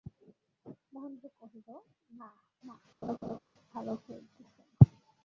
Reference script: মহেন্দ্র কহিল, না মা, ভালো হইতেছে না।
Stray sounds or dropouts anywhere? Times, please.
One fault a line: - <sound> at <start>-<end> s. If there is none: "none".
- laugh at 3.0-3.4 s